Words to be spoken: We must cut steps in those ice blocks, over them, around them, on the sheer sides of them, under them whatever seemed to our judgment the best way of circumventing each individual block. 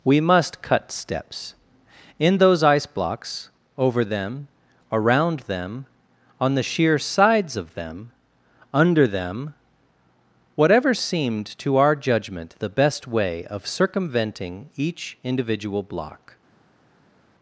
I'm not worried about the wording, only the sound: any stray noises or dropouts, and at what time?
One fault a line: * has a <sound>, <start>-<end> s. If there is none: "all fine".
all fine